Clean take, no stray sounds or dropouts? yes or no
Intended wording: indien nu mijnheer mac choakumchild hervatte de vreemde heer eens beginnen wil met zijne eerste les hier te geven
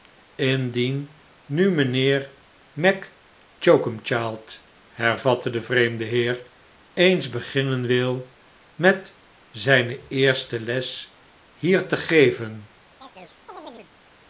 no